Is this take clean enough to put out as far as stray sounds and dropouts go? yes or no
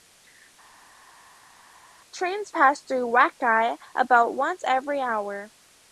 yes